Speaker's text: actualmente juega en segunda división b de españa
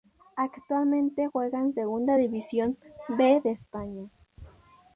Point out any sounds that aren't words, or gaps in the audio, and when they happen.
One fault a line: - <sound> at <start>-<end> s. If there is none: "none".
none